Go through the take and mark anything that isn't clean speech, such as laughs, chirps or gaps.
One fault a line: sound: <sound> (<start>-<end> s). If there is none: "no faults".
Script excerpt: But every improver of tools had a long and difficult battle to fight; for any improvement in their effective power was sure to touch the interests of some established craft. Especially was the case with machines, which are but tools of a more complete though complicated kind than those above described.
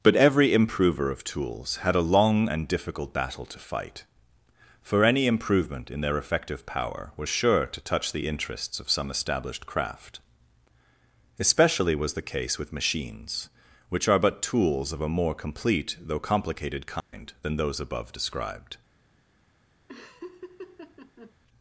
sound: dropout (17.0-17.1 s)
sound: laugh (19.9-21.3 s)